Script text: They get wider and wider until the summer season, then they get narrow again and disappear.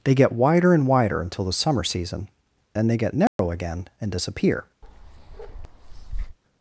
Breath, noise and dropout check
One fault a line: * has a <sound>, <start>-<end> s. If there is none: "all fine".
* has a dropout, 3.3-3.4 s
* has a bark, 4.8-6.4 s